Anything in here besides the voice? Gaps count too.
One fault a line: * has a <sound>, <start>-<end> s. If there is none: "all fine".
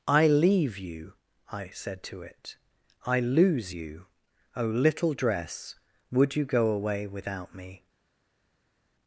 all fine